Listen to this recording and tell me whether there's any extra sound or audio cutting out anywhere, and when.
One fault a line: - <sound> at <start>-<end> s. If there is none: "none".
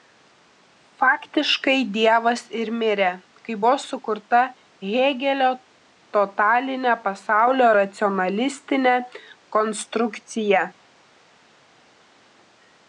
none